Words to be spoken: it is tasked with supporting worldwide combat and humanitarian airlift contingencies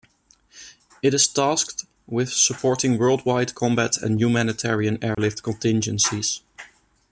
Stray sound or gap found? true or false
true